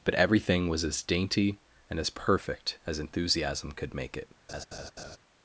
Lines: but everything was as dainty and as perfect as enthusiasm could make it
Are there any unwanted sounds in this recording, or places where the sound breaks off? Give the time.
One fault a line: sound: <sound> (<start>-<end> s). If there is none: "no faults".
sound: laugh (4.5-5.2 s)